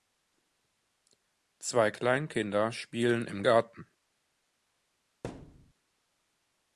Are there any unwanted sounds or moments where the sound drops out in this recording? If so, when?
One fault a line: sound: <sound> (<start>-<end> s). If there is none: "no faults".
sound: thud (5.2-5.7 s)